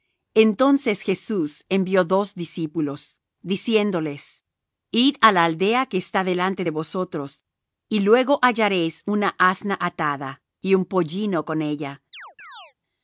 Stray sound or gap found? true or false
true